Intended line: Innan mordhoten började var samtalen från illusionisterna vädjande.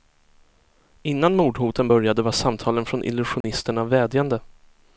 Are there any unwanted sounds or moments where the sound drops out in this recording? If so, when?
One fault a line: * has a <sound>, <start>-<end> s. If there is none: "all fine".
* has a dropout, 3.4-3.4 s